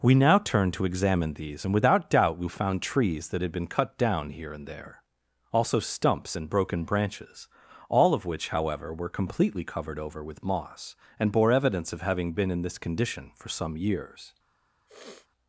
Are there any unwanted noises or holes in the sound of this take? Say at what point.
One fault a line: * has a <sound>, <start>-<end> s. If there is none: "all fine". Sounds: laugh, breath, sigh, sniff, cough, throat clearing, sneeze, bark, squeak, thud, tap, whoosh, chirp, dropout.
* has a sniff, 14.9-15.3 s